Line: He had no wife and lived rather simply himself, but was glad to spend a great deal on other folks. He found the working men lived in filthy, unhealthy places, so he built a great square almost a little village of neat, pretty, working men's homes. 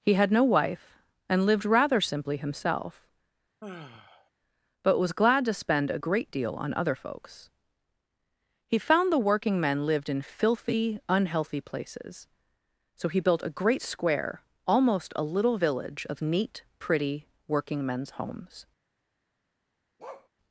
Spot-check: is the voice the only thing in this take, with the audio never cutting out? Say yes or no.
no